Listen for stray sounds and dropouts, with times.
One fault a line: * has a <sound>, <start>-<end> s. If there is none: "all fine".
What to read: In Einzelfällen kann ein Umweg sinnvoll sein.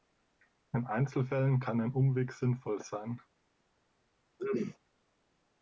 * has a throat clearing, 4.4-4.8 s